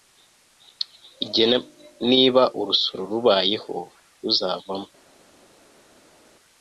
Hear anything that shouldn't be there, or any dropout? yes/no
no